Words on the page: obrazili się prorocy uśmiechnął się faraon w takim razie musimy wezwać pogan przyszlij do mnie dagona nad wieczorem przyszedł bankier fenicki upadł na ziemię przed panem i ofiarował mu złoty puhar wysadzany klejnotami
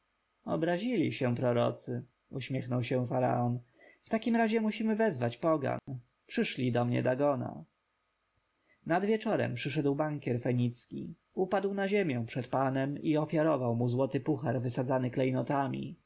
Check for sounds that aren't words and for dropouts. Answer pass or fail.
fail